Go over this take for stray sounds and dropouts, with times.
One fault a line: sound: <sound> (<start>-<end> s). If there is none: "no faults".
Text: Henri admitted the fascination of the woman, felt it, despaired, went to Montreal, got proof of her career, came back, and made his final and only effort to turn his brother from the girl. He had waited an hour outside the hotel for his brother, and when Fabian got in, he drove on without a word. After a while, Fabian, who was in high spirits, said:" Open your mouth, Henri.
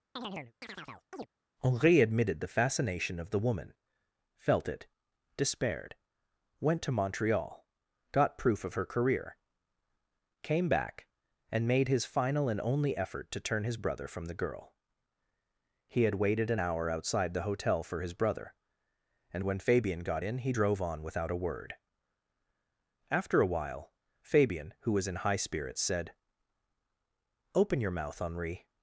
sound: chirp (0.2-1.3 s)